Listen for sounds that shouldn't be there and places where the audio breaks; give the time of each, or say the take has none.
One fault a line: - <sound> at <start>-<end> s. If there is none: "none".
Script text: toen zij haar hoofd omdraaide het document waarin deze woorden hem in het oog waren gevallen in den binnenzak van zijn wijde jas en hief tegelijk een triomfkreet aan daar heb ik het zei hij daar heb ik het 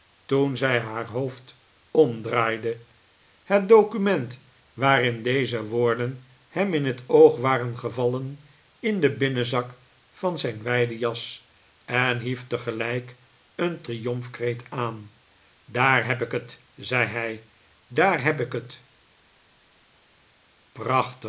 none